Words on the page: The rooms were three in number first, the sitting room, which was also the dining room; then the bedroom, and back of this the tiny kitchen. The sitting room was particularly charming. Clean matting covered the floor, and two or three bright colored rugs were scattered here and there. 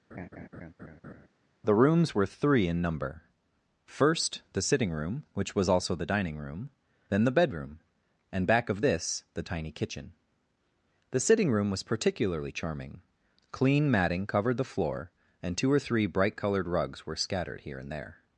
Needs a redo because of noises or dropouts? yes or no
yes